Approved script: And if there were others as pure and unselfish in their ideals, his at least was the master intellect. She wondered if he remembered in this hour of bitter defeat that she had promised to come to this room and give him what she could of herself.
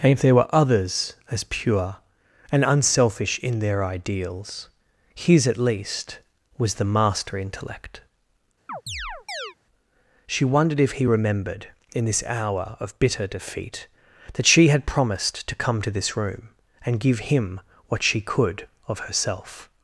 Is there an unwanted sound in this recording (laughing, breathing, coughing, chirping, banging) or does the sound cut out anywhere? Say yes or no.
yes